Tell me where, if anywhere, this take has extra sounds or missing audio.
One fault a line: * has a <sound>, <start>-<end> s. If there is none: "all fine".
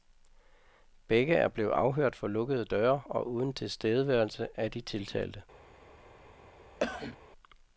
* has a cough, 6.8-7.2 s